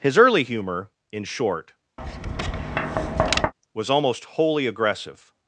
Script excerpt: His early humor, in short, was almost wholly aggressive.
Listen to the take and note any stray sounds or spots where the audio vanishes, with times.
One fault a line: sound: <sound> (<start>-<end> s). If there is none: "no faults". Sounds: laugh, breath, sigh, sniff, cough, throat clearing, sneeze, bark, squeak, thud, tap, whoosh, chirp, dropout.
sound: tap (2.0-3.5 s)